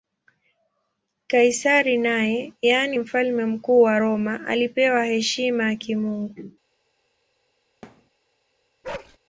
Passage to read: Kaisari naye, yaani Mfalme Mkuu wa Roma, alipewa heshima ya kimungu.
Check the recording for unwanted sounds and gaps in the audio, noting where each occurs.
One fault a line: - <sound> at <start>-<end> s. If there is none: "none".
- thud at 7.8-8.1 s
- bark at 8.8-9.2 s